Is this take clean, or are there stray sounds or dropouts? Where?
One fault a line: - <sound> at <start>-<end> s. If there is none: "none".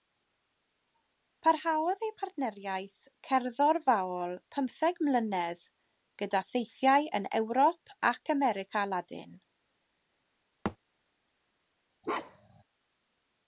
- thud at 10.6-10.8 s
- bark at 12.0-12.6 s